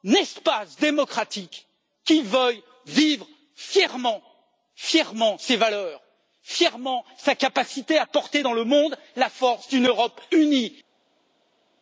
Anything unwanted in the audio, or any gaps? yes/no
no